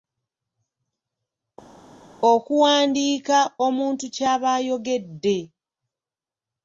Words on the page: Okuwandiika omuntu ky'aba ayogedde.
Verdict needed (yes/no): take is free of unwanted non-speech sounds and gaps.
yes